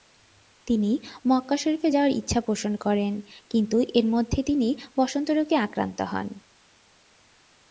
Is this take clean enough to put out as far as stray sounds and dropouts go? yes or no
yes